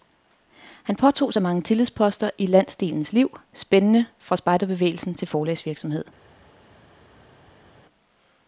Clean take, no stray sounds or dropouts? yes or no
yes